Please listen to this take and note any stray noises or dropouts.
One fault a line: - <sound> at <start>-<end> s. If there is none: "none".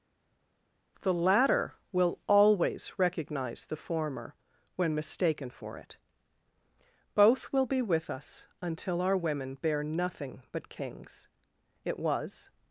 none